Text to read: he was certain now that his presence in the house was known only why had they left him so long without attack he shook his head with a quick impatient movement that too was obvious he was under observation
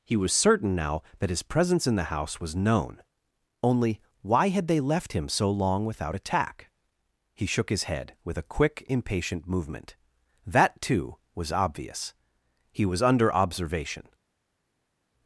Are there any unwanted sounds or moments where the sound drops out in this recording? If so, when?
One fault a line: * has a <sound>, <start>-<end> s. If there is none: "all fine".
all fine